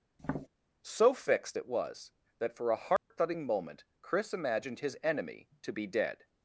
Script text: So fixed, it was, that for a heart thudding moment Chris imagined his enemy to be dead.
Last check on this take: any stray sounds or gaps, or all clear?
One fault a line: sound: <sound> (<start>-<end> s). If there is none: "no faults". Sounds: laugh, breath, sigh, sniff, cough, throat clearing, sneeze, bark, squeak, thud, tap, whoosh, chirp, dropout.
sound: tap (0.2-0.5 s)
sound: dropout (3.0-3.1 s)